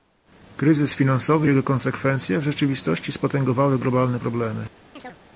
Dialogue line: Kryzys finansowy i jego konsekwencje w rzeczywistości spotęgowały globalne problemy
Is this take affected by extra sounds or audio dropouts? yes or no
yes